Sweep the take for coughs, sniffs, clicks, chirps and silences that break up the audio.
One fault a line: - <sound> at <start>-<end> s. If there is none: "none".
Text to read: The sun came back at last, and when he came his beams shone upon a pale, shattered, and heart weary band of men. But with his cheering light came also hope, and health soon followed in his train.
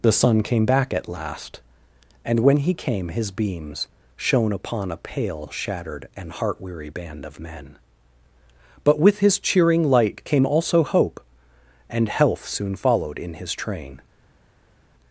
none